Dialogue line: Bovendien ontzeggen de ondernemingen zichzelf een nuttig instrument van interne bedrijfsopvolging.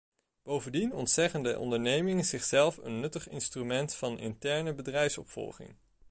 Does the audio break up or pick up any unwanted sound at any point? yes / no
no